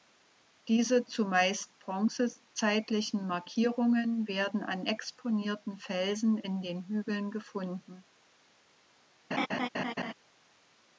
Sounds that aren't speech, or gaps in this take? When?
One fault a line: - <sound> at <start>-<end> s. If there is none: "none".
- laugh at 9.3-10.1 s